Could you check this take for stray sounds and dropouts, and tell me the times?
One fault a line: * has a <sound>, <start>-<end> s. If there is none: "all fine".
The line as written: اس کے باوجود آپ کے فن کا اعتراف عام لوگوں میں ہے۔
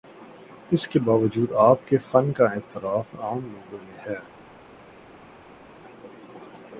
all fine